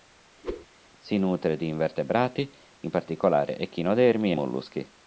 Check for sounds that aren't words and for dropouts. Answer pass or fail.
fail